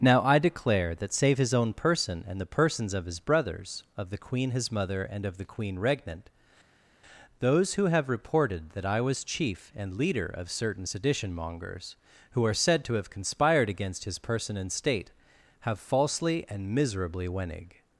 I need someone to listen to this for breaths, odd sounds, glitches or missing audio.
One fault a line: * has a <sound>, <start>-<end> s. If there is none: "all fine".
all fine